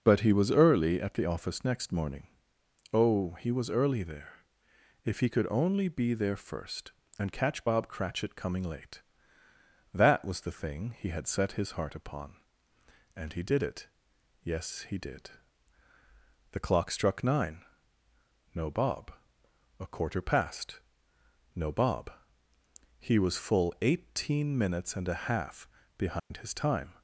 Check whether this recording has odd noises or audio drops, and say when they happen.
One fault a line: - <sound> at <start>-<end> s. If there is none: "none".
- dropout at 26.2-26.3 s